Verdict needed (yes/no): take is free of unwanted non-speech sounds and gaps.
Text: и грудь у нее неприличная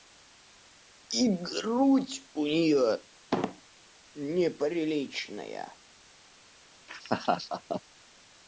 no